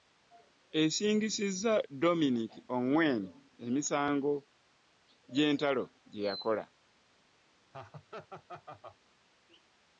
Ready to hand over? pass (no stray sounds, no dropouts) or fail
fail